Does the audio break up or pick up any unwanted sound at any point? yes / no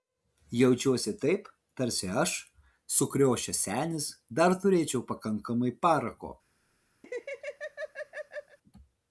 yes